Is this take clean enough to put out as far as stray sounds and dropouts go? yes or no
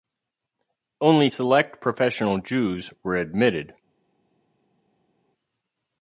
yes